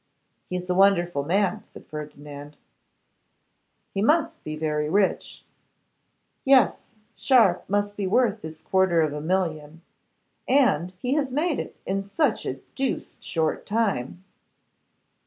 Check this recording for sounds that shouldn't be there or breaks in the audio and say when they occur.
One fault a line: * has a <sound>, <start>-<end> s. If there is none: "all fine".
all fine